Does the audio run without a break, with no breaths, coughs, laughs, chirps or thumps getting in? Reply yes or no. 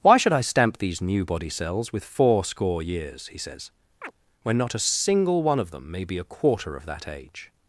no